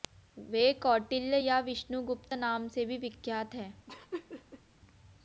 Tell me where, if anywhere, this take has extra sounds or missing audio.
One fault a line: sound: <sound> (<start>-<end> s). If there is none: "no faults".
sound: laugh (3.9-4.6 s)